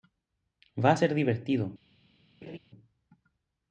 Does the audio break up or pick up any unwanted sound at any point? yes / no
yes